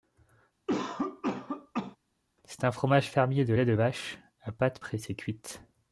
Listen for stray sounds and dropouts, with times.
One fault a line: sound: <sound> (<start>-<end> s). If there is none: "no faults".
sound: cough (0.7-2.0 s)